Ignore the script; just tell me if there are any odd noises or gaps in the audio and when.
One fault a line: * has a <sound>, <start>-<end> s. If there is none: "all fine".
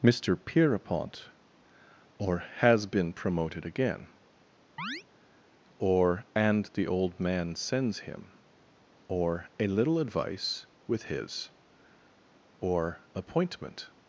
* has a chirp, 4.8-5.0 s